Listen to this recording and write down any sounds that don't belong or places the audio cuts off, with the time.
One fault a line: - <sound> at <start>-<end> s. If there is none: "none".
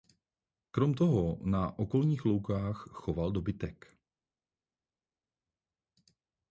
none